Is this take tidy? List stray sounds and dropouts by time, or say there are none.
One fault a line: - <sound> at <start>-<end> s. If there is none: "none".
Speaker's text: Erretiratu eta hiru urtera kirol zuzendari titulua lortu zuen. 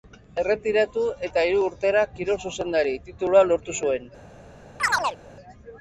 - chirp at 4.8-5.2 s